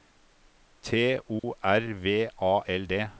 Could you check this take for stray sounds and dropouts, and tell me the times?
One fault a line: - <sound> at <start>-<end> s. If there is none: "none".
- dropout at 1.4-1.4 s